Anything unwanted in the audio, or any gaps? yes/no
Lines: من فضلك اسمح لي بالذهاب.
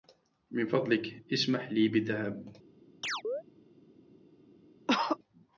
yes